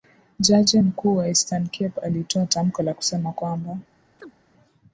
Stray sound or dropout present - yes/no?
yes